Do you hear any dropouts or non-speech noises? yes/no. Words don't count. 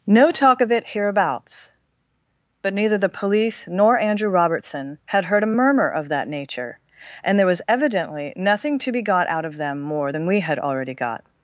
no